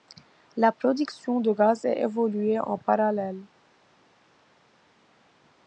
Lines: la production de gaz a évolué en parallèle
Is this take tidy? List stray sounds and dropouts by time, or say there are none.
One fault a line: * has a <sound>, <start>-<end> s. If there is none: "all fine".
all fine